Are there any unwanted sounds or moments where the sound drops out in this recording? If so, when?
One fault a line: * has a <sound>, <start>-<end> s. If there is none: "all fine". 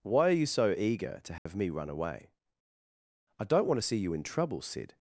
* has a dropout, 1.4-1.5 s